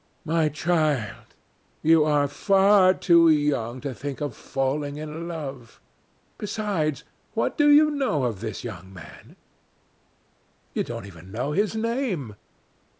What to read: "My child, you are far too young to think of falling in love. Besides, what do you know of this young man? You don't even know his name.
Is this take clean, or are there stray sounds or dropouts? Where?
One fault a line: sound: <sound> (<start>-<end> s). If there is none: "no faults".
no faults